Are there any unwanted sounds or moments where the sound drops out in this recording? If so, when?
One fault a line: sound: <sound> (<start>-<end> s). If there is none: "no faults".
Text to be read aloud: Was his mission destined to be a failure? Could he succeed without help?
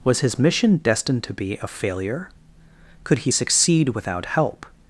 no faults